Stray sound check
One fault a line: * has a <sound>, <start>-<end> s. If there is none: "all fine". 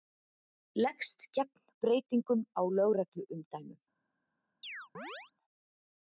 * has a chirp, 4.6-5.3 s